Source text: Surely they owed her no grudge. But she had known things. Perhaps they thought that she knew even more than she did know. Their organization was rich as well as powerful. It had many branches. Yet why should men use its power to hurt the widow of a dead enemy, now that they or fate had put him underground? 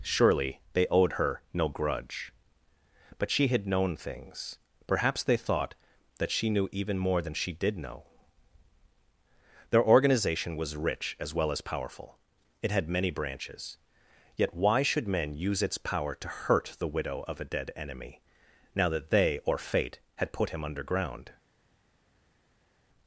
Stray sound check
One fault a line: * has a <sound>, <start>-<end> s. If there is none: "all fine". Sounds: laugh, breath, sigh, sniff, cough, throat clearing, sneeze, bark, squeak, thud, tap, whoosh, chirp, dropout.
all fine